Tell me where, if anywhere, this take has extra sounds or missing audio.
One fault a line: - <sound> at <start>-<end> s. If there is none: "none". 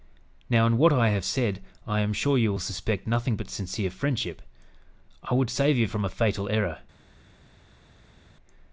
none